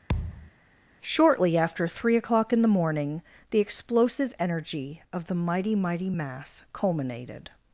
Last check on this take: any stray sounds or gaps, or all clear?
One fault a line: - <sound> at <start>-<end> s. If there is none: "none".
- thud at 0.1-0.5 s